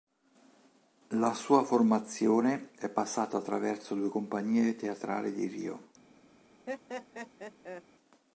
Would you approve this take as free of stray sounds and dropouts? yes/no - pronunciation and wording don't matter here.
no